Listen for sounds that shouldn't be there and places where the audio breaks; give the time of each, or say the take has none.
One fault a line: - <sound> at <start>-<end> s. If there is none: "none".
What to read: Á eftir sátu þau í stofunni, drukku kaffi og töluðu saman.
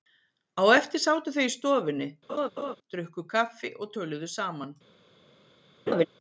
- laugh at 2.3-2.8 s
- laugh at 5.9-6.1 s